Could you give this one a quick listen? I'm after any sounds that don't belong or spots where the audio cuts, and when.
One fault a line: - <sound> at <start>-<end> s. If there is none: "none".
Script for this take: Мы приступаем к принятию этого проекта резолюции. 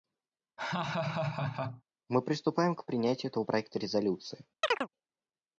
- laugh at 0.6-1.8 s
- chirp at 4.6-4.9 s